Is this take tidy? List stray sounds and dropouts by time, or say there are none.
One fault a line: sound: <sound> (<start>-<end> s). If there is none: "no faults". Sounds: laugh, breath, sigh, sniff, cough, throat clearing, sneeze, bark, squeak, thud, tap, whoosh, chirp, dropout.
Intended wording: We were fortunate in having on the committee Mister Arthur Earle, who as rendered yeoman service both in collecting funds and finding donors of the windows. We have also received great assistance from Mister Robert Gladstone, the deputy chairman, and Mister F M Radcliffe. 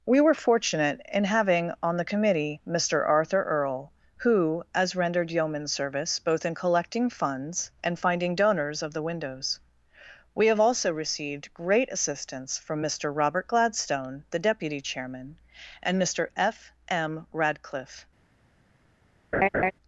sound: laugh (19.3-19.7 s)